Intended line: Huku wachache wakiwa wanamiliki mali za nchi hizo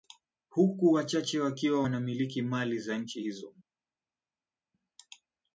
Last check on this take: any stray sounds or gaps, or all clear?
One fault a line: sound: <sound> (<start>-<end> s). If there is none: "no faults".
no faults